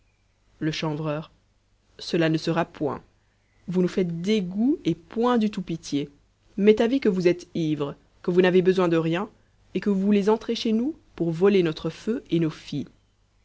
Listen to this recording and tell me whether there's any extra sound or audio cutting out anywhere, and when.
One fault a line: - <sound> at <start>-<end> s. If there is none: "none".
none